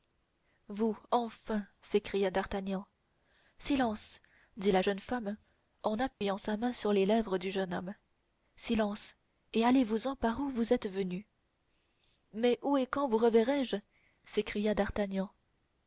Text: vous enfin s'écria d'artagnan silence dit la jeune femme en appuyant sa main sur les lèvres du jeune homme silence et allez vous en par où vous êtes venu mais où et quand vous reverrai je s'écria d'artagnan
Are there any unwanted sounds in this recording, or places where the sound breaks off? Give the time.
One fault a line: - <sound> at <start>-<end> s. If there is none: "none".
- dropout at 6.1-6.2 s